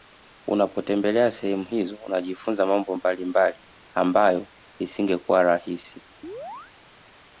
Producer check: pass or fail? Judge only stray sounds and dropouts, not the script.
fail